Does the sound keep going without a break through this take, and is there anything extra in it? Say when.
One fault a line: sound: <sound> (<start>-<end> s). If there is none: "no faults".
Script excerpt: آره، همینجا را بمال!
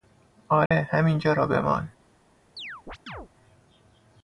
sound: dropout (0.7-0.7 s)
sound: chirp (2.6-3.3 s)